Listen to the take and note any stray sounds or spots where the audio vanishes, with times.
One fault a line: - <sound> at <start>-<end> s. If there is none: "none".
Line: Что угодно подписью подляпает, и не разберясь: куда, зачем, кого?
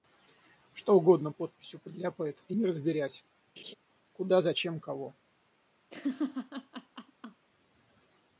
- laugh at 3.6-3.7 s
- laugh at 5.9-7.5 s